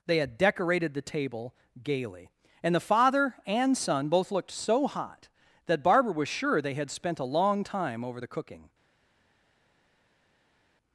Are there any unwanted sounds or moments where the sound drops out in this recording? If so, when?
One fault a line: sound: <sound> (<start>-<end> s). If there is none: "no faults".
no faults